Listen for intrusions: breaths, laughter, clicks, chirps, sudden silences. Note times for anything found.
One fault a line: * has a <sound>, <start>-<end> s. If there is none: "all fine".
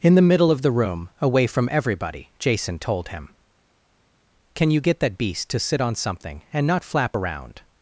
all fine